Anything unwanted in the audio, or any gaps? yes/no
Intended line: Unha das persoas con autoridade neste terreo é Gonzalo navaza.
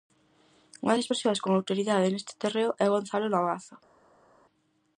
no